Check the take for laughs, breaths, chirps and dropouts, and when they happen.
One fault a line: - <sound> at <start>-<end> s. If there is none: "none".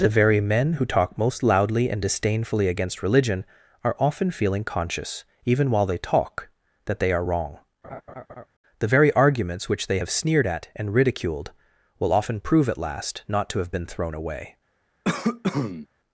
- laugh at 7.8-8.5 s
- cough at 15.0-15.9 s